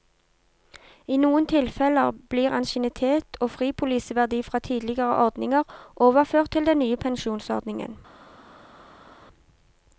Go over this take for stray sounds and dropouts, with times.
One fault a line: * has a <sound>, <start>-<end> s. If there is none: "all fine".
all fine